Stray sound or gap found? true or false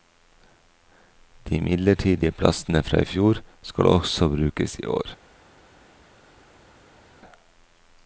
false